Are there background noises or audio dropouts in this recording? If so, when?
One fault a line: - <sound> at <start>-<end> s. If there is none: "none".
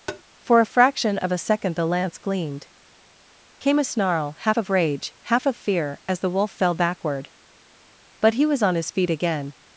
- tap at 0.1-0.2 s